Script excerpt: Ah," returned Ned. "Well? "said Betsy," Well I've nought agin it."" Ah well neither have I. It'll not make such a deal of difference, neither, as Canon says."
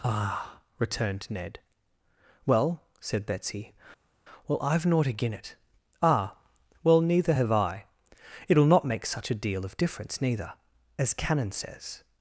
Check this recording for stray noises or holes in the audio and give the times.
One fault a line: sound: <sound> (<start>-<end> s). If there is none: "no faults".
no faults